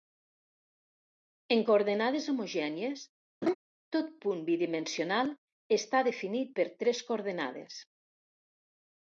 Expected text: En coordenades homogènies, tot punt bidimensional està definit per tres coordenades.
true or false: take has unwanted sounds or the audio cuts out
true